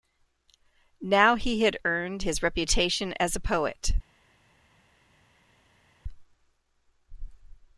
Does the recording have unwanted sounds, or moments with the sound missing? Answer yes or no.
no